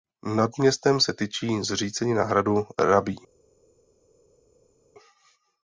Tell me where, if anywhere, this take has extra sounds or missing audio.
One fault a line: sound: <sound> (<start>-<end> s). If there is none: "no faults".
no faults